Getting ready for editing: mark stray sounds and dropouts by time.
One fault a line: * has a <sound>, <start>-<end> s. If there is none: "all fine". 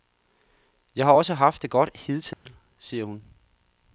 * has a dropout, 2.3-2.5 s